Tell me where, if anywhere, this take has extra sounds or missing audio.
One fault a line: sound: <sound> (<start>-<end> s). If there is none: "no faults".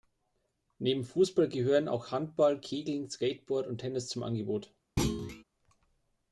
sound: thud (5.0-5.4 s)